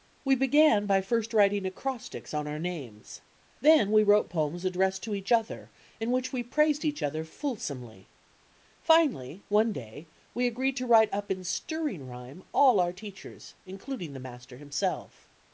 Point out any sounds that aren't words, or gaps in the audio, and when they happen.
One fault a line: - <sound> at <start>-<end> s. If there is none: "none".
none